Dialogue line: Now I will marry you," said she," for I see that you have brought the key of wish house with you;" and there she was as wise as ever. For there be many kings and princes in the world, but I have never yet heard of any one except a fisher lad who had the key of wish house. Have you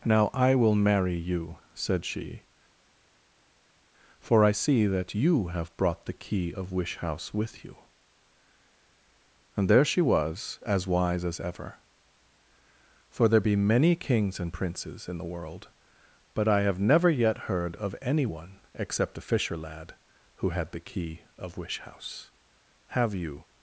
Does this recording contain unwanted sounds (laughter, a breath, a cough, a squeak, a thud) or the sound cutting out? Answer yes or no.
no